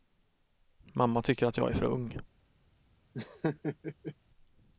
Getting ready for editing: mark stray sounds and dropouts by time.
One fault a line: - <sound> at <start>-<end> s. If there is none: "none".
- laugh at 3.1-4.2 s